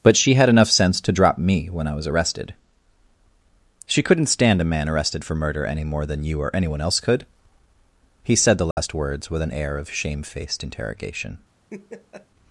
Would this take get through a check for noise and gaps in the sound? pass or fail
fail